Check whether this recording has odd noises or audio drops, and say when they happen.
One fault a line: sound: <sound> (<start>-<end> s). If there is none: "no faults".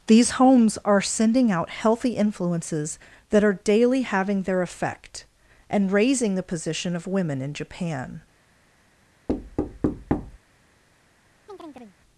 sound: thud (9.3-10.4 s)
sound: chirp (11.5-12.0 s)